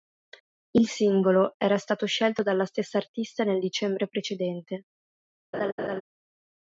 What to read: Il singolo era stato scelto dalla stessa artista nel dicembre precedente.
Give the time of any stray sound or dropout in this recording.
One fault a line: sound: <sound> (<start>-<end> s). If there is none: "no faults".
sound: laugh (5.5-6.0 s)